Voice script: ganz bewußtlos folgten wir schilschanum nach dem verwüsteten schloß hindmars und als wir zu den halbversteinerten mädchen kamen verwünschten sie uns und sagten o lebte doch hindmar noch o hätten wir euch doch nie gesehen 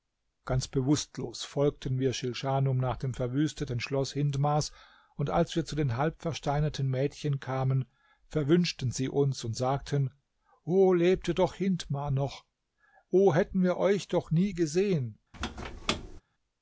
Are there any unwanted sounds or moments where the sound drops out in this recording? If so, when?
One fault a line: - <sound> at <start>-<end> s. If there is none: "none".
- squeak at 15.3-16.2 s